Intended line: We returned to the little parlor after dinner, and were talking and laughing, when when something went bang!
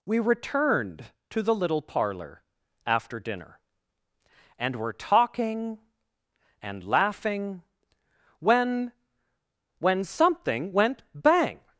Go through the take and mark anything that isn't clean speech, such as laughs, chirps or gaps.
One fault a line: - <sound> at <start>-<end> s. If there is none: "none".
none